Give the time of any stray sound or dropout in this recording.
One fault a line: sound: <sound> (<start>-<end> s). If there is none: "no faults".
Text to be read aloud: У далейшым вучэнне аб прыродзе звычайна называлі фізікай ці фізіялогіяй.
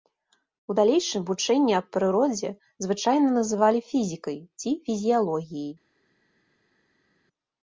no faults